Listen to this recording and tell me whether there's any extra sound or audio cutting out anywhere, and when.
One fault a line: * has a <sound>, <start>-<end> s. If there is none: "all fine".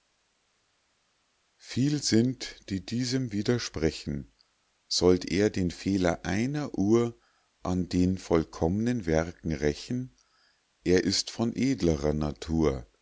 all fine